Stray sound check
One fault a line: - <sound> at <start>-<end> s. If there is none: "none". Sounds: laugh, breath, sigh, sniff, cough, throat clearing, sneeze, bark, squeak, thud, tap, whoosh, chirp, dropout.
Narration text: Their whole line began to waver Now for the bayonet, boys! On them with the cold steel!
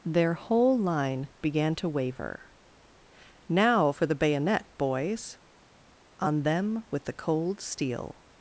none